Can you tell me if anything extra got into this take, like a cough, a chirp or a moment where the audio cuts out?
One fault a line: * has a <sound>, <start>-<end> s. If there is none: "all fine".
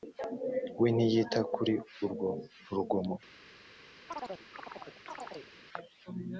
* has a chirp, 4.1-5.5 s